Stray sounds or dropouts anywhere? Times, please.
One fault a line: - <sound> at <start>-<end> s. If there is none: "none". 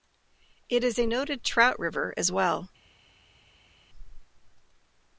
none